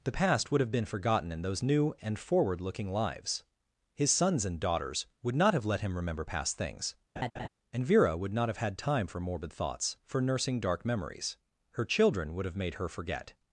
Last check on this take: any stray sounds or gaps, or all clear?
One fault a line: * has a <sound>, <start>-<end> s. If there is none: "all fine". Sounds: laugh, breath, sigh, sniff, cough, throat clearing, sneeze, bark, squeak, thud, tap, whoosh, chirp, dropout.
* has a laugh, 7.2-7.5 s